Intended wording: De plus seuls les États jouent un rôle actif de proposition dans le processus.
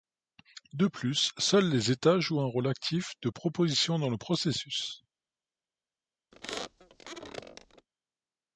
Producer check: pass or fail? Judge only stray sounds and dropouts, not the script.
fail